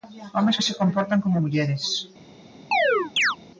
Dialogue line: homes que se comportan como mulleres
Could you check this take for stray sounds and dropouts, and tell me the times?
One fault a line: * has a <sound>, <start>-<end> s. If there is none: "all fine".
* has a chirp, 2.7-3.4 s